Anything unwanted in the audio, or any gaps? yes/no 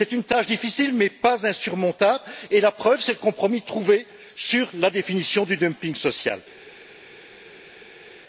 no